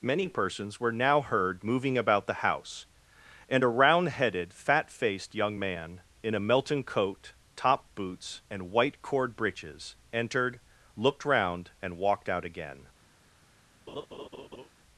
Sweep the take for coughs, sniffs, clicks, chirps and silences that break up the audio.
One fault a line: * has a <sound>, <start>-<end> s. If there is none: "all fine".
* has a laugh, 13.9-14.7 s